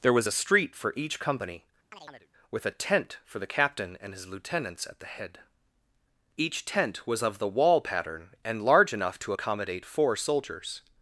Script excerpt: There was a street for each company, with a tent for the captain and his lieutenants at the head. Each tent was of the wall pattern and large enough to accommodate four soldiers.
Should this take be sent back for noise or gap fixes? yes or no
yes